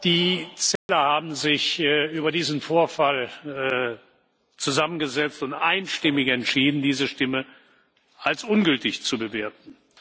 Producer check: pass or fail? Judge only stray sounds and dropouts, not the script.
fail